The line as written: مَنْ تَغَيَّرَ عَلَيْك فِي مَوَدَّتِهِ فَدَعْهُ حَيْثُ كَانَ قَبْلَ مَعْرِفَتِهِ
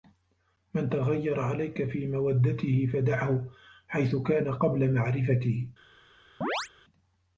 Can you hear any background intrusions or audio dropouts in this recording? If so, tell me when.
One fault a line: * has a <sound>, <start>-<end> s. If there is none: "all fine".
* has a chirp, 6.4-6.7 s